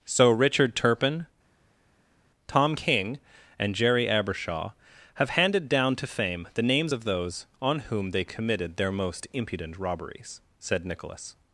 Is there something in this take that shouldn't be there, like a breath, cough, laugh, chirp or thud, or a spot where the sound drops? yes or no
no